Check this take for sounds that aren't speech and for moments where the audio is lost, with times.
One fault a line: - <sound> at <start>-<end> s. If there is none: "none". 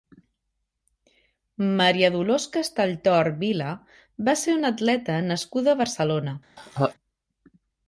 - laugh at 6.6-6.9 s